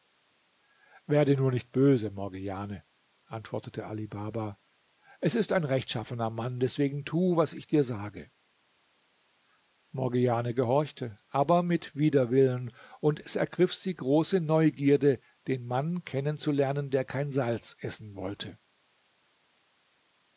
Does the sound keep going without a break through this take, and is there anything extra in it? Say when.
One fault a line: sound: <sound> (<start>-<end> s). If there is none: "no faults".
no faults